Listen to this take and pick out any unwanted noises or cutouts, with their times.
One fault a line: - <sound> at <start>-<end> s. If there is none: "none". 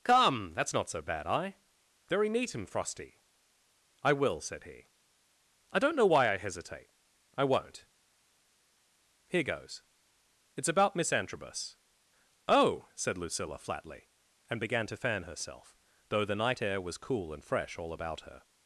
none